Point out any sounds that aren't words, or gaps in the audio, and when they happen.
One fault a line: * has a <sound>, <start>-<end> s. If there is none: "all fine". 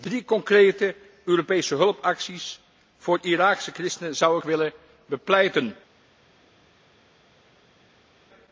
all fine